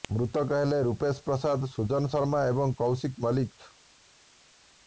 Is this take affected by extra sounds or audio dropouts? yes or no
no